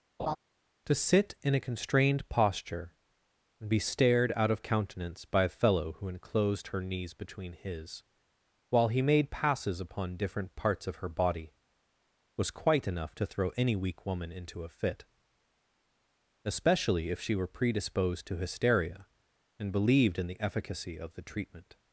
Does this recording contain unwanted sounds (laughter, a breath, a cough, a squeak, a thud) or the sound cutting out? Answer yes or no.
yes